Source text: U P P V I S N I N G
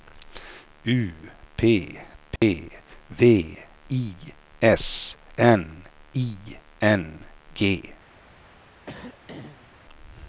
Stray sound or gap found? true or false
true